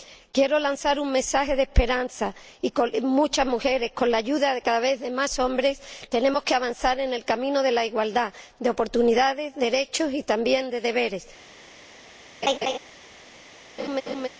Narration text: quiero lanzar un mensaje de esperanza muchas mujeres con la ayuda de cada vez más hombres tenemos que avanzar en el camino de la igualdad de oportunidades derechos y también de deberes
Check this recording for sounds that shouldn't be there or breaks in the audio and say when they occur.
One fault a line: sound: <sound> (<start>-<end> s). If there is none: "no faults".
sound: laugh (12.4-12.8 s)
sound: laugh (13.8-14.3 s)